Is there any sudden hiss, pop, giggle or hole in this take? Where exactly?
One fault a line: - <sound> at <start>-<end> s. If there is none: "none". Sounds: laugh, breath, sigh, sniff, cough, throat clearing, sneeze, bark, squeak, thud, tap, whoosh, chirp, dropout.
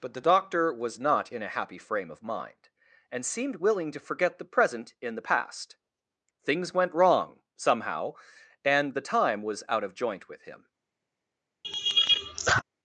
- laugh at 11.6-12.6 s